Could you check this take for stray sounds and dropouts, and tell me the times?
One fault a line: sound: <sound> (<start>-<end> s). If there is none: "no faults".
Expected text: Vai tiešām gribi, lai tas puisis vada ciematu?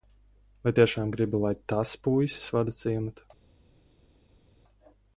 no faults